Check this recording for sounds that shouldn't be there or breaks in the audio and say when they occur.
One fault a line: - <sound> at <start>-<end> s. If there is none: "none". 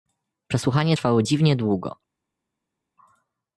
none